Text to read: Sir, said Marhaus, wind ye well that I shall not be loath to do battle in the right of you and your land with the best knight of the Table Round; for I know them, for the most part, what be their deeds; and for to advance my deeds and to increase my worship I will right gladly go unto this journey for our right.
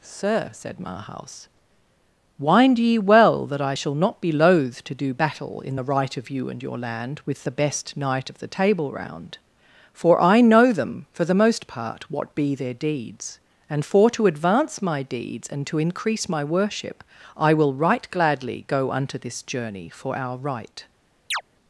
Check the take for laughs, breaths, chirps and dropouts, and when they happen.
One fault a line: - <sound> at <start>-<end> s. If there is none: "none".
- chirp at 21.3-21.4 s